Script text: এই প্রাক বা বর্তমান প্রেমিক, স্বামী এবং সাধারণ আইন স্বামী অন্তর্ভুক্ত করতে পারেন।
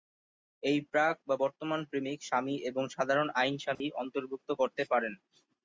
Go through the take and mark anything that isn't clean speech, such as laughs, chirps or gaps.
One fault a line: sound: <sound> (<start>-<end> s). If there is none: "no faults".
sound: dropout (3.7-3.8 s)